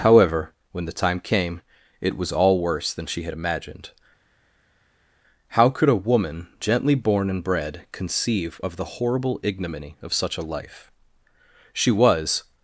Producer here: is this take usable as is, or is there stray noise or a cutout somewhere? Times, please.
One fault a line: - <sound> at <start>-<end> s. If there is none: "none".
none